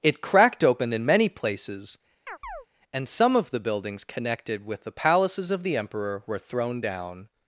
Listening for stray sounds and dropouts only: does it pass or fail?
fail